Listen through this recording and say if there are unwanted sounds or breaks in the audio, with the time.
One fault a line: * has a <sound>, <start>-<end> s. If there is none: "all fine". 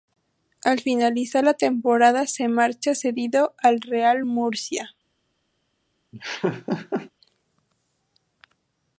* has a laugh, 6.1-7.1 s